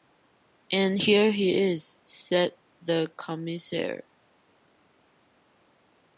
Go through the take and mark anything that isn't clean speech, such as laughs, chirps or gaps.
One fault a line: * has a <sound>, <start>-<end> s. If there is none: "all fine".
all fine